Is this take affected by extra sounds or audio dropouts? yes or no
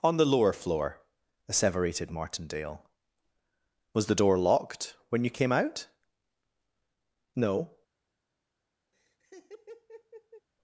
yes